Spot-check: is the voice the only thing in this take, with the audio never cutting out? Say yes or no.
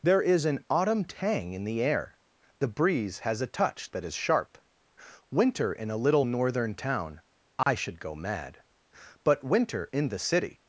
no